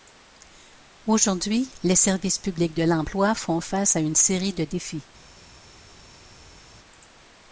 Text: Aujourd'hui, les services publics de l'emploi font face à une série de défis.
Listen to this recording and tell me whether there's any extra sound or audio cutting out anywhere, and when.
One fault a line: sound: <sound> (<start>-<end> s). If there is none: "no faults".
no faults